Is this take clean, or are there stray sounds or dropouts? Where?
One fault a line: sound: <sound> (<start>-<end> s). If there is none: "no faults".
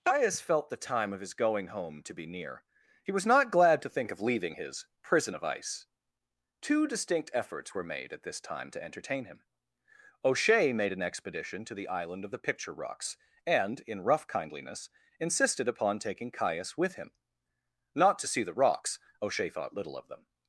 no faults